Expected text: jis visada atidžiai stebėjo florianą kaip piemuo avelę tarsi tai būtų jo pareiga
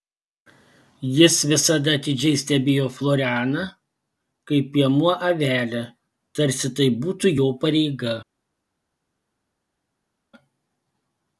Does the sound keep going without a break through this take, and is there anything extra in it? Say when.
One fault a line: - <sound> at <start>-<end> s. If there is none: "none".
none